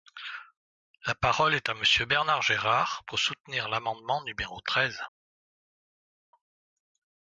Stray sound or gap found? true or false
false